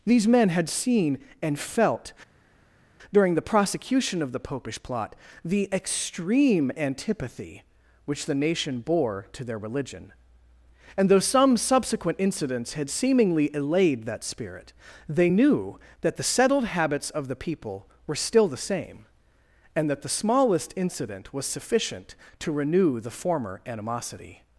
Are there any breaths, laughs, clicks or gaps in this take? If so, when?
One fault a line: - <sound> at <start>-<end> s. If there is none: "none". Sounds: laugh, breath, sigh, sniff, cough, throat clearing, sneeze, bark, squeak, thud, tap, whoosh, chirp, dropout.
none